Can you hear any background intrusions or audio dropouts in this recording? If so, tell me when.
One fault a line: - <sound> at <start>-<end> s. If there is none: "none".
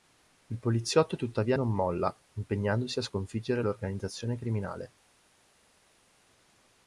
none